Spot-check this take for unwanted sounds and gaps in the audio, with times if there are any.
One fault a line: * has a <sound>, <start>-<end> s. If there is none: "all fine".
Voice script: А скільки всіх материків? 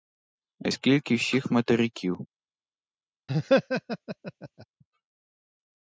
* has a laugh, 3.3-4.7 s